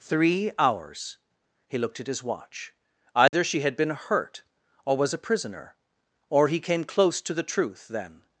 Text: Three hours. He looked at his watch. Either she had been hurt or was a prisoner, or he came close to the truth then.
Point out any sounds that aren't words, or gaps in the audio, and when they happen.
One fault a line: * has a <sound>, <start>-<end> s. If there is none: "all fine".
* has a dropout, 3.3-3.3 s